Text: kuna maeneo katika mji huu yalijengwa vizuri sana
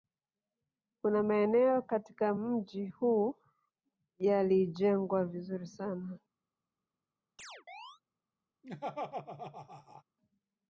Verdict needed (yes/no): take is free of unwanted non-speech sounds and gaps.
no